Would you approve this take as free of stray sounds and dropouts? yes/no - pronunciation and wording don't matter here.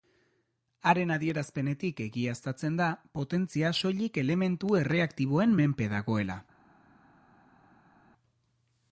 yes